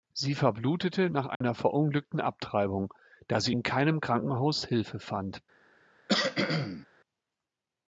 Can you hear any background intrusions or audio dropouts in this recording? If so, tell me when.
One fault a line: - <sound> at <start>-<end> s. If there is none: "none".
- dropout at 1.4-1.4 s
- cough at 6.1-6.9 s